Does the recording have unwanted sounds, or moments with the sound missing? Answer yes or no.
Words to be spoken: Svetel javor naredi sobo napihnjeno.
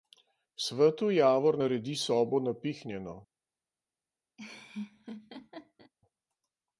yes